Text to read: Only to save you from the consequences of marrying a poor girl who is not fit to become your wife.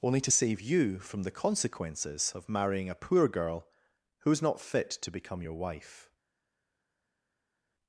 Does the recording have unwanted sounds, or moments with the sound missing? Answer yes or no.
no